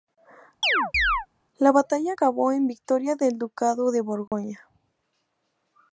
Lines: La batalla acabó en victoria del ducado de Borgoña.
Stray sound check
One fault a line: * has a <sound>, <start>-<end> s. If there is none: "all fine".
* has a chirp, 0.6-1.3 s
* has a dropout, 4.3-4.3 s